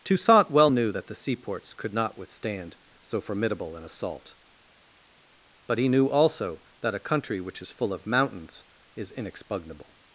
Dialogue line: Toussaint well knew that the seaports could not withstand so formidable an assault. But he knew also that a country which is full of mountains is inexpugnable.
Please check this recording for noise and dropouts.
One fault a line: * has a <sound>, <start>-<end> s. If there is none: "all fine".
all fine